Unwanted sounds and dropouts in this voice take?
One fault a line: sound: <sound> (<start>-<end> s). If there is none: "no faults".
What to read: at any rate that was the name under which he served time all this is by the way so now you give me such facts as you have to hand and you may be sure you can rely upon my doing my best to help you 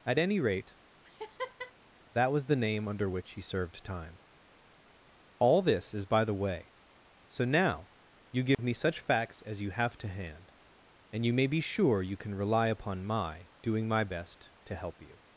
sound: laugh (1.0-1.7 s)
sound: dropout (8.5-8.6 s)